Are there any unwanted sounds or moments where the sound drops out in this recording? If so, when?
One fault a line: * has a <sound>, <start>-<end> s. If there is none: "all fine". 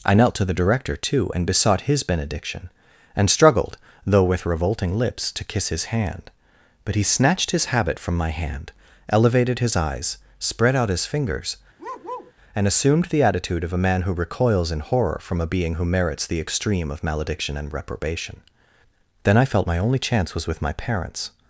* has a bark, 11.8-12.3 s